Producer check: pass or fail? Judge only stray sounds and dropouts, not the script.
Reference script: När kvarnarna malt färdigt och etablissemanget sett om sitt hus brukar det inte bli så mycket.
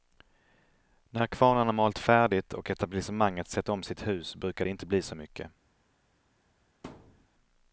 fail